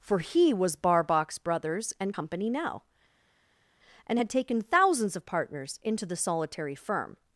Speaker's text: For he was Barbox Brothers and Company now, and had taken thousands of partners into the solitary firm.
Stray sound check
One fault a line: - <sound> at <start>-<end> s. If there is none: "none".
none